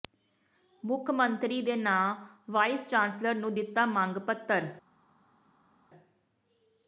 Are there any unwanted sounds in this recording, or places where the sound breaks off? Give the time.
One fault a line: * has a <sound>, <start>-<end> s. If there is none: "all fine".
all fine